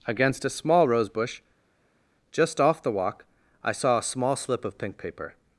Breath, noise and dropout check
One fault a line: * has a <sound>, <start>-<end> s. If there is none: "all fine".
all fine